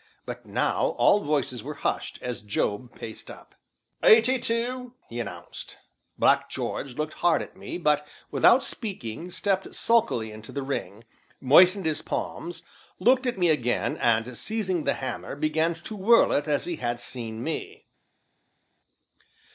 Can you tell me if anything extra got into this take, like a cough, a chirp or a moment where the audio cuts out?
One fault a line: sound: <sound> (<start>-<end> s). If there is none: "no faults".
no faults